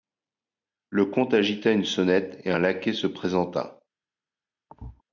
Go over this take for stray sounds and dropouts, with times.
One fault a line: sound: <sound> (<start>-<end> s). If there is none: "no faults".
sound: thud (4.7-5.0 s)